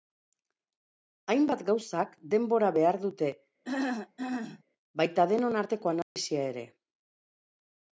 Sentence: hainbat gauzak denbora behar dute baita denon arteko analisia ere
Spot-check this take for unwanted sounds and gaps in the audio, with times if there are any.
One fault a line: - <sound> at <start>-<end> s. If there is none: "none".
- throat clearing at 3.6-4.6 s
- dropout at 6.0-6.2 s